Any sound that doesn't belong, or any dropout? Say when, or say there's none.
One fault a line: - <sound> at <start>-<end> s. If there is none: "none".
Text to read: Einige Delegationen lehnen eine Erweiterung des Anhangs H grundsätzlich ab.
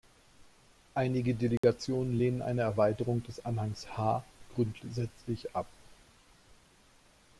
- dropout at 1.6-1.6 s